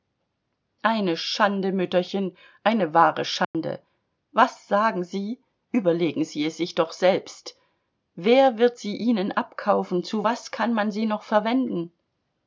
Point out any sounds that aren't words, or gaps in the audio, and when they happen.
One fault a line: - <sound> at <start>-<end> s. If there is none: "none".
- dropout at 3.4-3.5 s